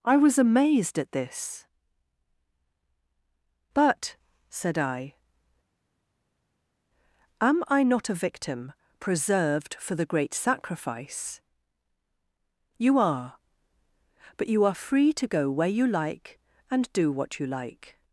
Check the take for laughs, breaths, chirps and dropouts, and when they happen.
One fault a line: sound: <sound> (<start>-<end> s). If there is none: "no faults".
no faults